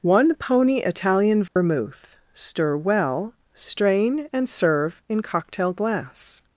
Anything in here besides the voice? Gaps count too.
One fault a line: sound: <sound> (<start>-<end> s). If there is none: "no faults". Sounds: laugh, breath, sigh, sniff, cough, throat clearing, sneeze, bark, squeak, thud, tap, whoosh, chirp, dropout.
sound: dropout (1.5-1.6 s)